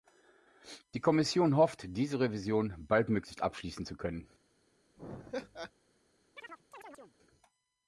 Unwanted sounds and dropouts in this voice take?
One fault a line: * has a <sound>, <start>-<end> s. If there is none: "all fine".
* has a laugh, 5.0-5.7 s
* has a chirp, 6.4-7.2 s